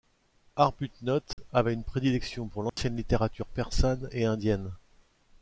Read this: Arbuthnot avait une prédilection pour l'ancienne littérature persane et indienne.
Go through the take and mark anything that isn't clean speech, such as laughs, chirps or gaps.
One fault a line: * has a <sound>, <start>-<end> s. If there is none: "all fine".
* has a dropout, 1.3-1.4 s
* has a dropout, 2.7-2.8 s